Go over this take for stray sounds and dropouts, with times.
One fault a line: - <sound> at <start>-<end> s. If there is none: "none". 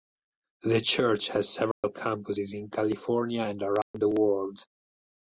- dropout at 1.7-1.8 s
- dropout at 3.8-3.9 s